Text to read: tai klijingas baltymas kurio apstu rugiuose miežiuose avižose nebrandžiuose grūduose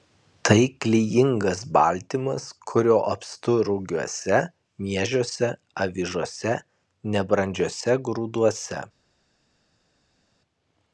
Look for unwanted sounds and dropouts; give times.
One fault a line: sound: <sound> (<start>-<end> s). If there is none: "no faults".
no faults